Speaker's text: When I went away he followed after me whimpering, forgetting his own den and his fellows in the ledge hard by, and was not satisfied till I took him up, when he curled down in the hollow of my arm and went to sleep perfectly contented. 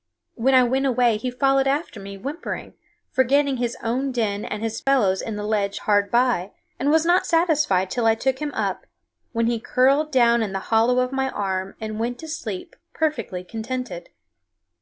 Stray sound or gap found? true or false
true